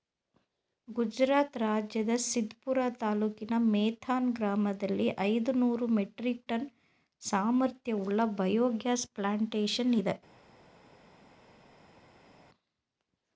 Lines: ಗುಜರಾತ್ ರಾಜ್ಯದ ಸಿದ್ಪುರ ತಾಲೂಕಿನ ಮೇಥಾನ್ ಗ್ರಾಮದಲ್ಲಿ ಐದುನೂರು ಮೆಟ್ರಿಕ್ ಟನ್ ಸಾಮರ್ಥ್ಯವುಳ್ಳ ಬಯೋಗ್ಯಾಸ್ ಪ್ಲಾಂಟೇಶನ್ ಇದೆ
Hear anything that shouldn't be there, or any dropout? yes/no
no